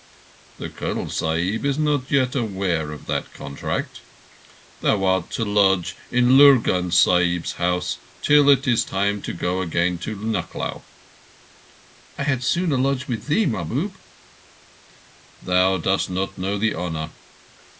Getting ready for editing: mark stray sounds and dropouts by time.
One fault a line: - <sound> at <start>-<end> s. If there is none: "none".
none